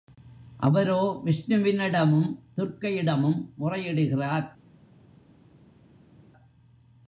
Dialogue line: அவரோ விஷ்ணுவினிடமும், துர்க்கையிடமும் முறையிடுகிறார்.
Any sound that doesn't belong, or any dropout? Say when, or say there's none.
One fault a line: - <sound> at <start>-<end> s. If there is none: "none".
none